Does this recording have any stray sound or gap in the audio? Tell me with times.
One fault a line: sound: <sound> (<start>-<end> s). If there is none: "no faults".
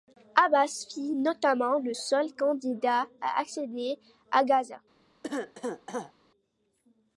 sound: cough (5.2-6.1 s)